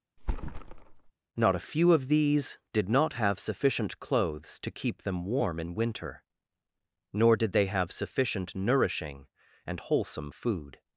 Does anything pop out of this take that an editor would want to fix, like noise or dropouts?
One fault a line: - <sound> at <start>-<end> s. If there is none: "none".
- thud at 0.2-1.1 s